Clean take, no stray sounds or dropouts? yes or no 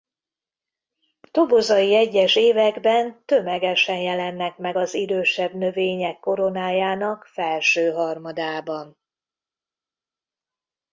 yes